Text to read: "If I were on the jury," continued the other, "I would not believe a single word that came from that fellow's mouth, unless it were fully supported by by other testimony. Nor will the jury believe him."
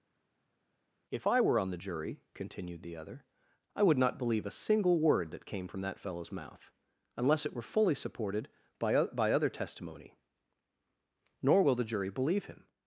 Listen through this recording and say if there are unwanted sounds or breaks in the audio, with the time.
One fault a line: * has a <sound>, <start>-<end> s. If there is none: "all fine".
all fine